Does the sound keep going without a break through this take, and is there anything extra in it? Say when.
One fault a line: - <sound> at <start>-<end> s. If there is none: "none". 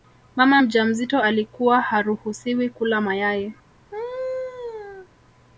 - laugh at 3.9-5.1 s